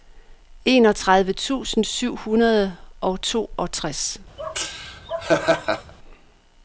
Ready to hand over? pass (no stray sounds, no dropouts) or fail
fail